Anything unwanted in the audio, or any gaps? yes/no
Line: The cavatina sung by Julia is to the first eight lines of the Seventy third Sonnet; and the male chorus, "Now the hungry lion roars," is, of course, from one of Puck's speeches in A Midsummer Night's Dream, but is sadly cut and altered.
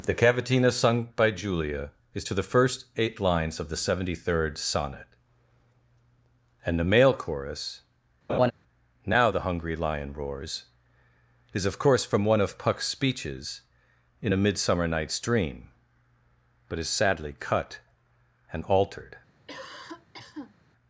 yes